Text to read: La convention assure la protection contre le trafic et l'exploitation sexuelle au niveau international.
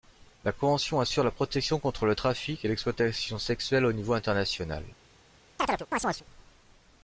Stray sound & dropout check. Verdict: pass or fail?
fail